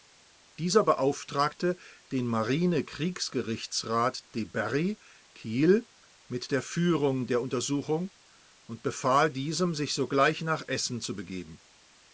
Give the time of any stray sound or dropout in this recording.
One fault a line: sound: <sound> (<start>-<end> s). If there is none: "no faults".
no faults